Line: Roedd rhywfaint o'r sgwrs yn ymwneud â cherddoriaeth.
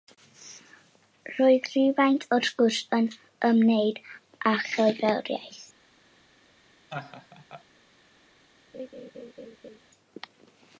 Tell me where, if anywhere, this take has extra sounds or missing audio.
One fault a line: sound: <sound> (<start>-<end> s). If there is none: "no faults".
sound: laugh (6.9-7.6 s)
sound: laugh (8.7-9.8 s)